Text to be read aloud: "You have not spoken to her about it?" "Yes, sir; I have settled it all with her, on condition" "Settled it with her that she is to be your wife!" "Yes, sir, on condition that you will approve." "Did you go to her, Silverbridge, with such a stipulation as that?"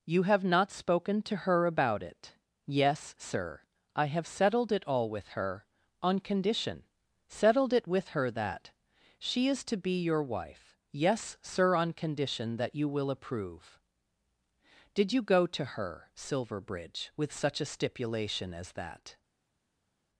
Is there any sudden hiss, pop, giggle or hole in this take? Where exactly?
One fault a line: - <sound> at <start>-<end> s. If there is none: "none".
none